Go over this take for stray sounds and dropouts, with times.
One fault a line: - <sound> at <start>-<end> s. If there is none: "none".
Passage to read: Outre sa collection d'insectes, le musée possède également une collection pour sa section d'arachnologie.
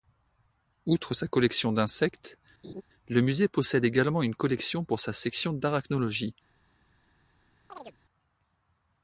- laugh at 2.6-2.8 s
- chirp at 7.7-8.0 s